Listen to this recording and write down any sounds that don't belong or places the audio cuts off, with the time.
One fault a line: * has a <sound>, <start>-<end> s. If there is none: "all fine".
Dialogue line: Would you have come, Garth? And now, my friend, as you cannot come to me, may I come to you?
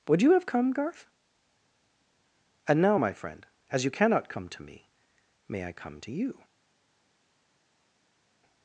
all fine